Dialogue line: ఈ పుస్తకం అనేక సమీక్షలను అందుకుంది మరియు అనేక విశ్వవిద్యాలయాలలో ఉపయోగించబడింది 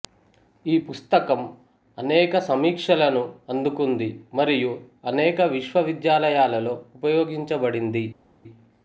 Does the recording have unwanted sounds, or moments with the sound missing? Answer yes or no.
no